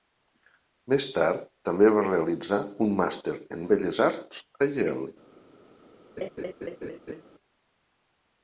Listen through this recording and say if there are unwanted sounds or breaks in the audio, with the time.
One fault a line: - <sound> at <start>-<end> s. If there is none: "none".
- laugh at 6.2-7.2 s